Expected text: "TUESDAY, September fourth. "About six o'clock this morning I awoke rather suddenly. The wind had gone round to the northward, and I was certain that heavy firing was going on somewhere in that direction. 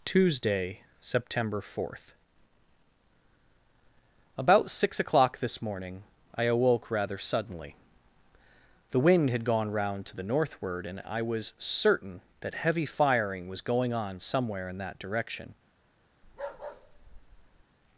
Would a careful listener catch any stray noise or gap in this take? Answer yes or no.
yes